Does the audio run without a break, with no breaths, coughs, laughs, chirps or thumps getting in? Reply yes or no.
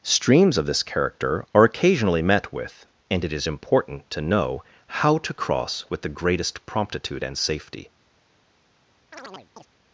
no